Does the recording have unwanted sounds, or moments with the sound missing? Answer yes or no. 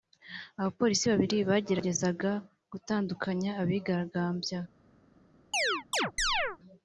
yes